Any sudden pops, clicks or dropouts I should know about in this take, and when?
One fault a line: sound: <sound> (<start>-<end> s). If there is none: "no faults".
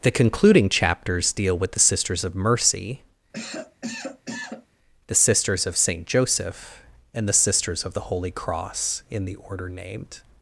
sound: cough (3.3-4.7 s)